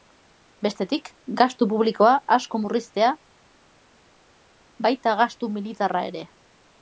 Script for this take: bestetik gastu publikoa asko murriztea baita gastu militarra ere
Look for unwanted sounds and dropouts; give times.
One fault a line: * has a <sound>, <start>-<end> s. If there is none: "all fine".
all fine